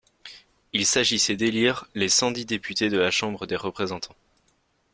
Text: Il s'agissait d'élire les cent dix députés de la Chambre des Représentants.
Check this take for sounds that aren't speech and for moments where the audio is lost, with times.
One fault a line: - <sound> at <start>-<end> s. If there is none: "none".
none